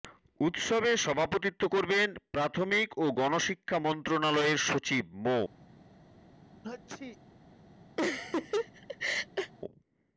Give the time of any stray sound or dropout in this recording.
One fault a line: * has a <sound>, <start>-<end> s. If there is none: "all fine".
* has a sneeze, 6.6-7.2 s
* has a laugh, 8.0-9.5 s